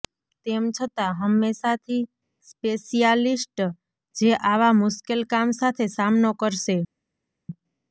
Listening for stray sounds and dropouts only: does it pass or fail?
pass